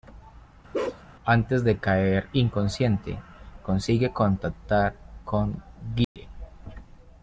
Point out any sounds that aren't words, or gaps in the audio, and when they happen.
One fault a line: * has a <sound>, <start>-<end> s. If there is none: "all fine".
* has a bark, 0.7-1.0 s
* has a dropout, 6.0-6.2 s